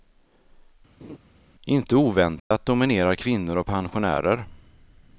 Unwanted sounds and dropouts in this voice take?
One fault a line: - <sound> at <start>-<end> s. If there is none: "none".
- laugh at 1.0-1.2 s
- dropout at 2.4-2.5 s